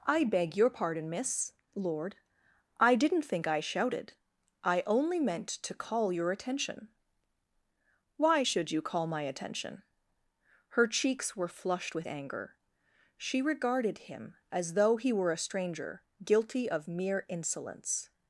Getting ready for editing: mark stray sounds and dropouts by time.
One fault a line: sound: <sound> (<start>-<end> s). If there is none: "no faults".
no faults